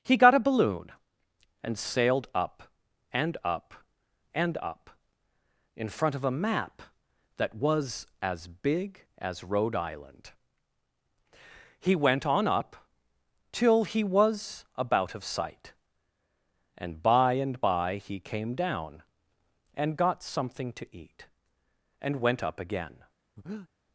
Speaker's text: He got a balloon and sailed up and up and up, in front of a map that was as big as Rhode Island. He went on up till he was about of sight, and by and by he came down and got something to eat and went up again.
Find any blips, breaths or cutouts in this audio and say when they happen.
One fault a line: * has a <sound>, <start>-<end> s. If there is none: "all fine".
* has a breath, 23.4-23.7 s